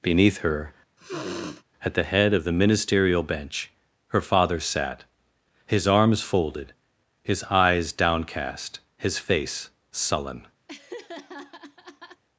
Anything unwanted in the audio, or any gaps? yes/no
yes